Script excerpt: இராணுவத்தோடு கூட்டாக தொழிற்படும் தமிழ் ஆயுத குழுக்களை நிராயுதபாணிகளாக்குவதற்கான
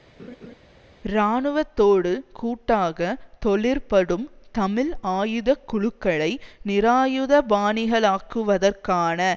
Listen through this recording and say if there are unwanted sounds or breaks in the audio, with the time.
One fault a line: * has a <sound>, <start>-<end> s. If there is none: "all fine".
* has a laugh, 0.2-0.5 s